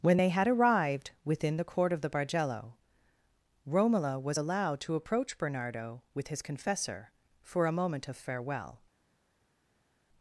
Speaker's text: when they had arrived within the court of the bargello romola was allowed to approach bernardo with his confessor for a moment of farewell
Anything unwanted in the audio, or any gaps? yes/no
no